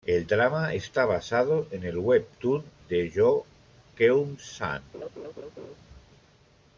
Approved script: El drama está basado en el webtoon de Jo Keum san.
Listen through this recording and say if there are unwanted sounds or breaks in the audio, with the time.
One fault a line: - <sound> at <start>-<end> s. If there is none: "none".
- laugh at 4.9-5.8 s